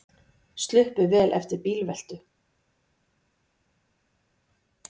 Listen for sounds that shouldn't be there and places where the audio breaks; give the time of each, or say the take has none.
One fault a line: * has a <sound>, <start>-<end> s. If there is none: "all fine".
all fine